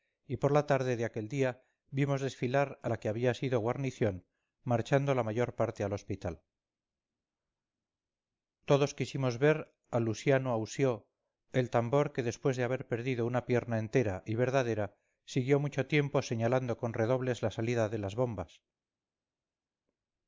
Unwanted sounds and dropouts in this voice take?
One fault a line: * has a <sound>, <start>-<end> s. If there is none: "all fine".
all fine